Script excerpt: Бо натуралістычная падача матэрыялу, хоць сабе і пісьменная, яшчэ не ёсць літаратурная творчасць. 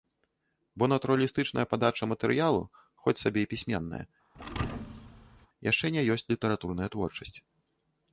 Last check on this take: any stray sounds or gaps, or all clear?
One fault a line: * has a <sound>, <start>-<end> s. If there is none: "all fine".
* has a thud, 4.3-5.5 s